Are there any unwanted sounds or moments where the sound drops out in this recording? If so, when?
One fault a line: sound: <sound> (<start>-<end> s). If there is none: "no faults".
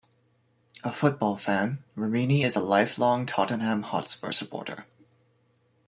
no faults